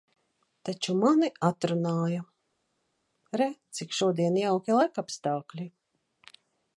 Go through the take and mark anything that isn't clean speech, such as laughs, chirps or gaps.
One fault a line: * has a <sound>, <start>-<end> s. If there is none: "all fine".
all fine